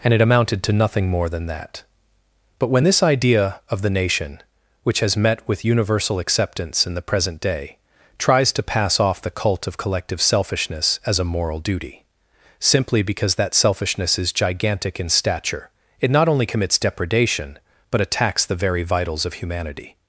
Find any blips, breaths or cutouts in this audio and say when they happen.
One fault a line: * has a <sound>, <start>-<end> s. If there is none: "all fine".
all fine